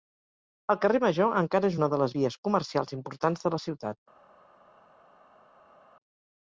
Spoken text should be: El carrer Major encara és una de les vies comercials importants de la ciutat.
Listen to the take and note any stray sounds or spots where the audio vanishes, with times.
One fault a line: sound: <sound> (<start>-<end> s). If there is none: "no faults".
no faults